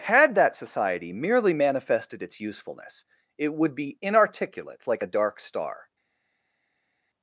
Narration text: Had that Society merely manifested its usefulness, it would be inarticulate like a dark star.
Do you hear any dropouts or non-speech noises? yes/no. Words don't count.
no